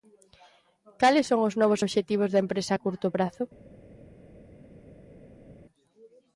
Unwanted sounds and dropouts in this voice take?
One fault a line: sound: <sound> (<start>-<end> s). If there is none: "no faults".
no faults